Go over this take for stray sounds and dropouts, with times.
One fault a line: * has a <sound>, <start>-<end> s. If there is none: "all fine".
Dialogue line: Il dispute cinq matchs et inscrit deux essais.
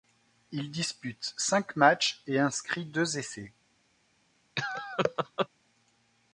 * has a laugh, 4.6-5.5 s